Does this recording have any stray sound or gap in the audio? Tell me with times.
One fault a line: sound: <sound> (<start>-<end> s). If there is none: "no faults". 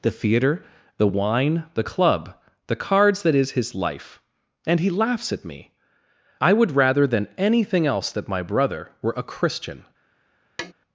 sound: tap (10.6-10.7 s)